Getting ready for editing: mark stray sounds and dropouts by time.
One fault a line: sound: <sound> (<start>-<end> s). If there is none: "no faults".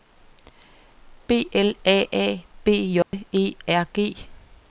sound: dropout (3.0-3.1 s)